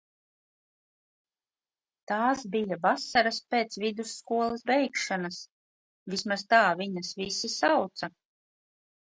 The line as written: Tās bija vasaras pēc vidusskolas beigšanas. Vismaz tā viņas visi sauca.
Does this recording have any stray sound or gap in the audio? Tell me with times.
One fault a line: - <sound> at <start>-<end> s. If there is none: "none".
none